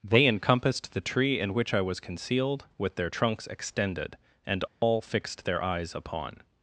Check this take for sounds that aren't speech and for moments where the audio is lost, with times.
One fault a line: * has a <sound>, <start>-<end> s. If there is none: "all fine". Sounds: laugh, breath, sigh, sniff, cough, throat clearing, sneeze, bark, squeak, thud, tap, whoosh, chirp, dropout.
* has a dropout, 4.7-4.8 s